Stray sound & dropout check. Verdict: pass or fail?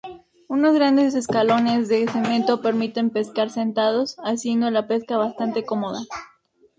pass